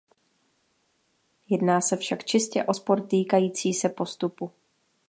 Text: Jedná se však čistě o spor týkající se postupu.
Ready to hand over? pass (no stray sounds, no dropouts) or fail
pass